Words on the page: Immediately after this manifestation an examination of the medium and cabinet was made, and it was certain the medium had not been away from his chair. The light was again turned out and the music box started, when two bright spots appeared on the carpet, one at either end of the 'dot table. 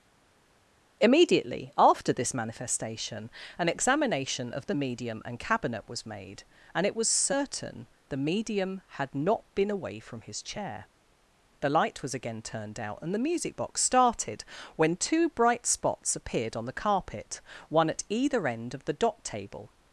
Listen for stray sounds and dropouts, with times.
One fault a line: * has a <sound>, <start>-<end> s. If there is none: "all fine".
all fine